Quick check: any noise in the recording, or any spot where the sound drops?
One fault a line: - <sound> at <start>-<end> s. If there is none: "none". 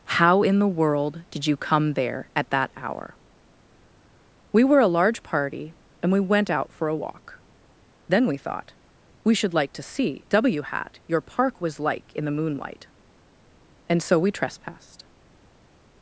none